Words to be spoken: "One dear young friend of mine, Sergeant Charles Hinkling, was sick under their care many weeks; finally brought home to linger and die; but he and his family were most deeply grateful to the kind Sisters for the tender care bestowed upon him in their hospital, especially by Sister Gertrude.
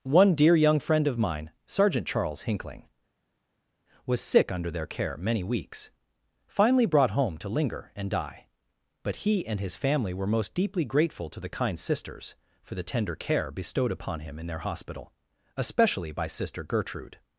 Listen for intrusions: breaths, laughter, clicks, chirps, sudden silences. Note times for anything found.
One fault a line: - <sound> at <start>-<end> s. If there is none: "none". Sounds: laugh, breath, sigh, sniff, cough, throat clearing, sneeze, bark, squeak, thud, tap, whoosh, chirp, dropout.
none